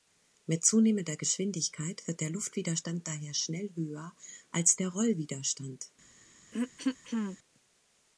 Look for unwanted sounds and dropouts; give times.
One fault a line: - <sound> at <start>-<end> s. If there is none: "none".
- throat clearing at 6.5-7.4 s